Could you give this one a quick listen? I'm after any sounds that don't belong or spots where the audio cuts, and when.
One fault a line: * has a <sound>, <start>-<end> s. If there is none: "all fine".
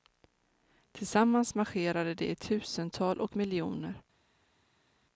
all fine